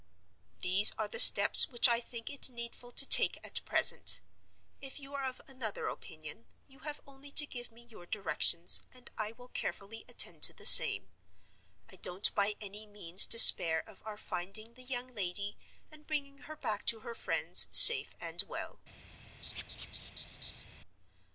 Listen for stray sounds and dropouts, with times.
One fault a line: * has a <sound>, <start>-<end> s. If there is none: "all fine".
* has a laugh, 19.4-20.6 s